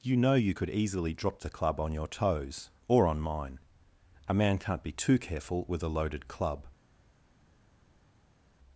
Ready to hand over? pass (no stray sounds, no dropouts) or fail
pass